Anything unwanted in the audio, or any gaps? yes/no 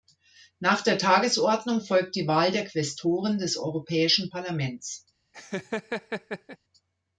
yes